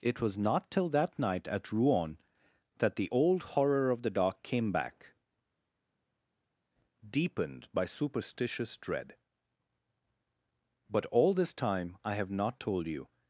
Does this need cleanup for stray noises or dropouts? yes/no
no